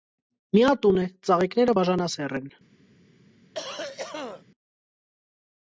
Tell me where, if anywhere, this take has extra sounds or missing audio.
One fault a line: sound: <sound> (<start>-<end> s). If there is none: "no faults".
sound: cough (3.5-4.4 s)